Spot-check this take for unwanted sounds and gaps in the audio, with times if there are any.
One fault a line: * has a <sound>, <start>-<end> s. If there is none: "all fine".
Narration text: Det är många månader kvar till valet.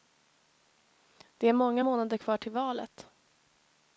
all fine